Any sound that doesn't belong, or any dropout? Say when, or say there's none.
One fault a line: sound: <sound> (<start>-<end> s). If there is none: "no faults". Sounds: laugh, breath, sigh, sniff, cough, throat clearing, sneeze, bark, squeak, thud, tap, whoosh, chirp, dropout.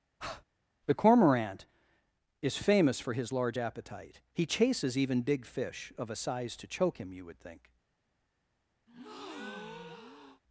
sound: breath (0.2-0.4 s)
sound: breath (8.9-10.4 s)